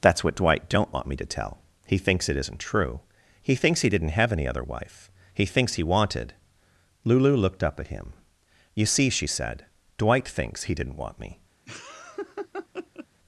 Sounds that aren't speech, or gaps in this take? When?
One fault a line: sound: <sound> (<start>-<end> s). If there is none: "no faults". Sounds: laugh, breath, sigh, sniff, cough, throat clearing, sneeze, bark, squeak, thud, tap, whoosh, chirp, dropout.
sound: laugh (11.7-13.1 s)